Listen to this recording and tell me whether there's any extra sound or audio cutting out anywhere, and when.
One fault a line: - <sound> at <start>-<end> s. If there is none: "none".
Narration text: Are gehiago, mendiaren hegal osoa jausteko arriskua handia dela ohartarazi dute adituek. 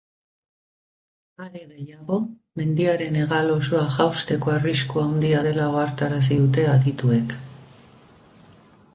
none